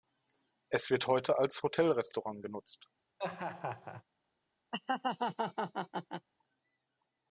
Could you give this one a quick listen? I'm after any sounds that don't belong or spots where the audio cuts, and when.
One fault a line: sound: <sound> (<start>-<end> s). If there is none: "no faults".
sound: laugh (3.2-4.0 s)
sound: laugh (4.7-6.3 s)